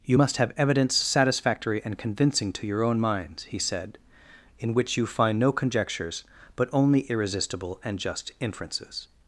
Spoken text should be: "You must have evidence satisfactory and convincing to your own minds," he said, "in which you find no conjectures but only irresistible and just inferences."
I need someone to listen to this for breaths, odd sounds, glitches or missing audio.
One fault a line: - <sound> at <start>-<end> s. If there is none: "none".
none